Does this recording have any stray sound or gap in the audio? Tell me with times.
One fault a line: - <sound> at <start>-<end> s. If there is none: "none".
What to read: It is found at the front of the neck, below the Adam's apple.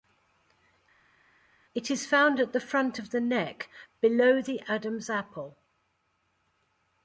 none